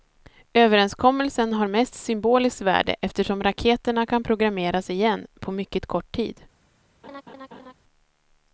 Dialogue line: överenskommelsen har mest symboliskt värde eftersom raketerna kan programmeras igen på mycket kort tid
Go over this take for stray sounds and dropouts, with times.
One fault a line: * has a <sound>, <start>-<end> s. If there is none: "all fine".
* has a laugh, 7.0-7.7 s